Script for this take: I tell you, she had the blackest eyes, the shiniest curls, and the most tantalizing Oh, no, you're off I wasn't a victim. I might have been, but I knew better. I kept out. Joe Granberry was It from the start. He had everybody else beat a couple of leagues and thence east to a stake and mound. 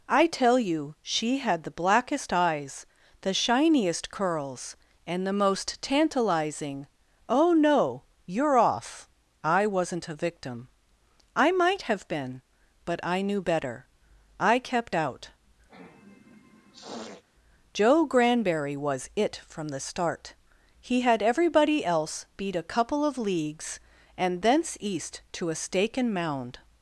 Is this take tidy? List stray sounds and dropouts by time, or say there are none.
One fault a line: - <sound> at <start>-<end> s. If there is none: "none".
- sniff at 15.7-17.2 s